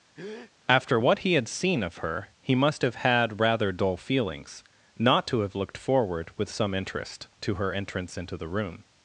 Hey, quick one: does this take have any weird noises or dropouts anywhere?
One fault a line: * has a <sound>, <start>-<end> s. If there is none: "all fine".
* has a breath, 0.2-0.5 s